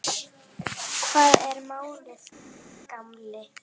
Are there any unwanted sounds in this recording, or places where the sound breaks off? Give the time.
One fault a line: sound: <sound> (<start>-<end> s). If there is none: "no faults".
no faults